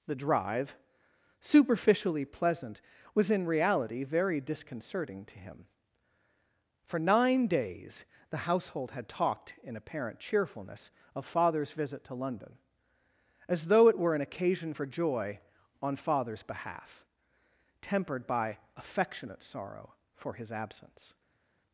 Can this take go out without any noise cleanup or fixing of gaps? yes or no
yes